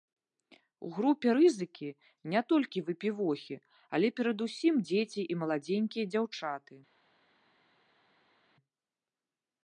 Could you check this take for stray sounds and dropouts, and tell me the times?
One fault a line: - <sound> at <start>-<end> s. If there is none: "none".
none